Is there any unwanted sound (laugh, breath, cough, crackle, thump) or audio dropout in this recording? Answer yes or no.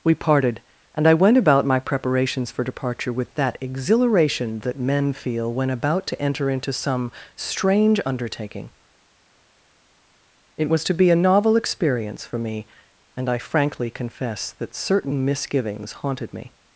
no